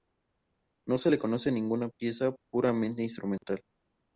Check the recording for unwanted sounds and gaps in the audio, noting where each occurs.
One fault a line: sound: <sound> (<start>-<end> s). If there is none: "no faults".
sound: dropout (3.4-3.4 s)